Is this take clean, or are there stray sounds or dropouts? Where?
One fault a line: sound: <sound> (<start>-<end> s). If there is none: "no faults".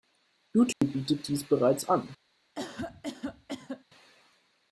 sound: dropout (0.7-0.8 s)
sound: cough (2.5-3.8 s)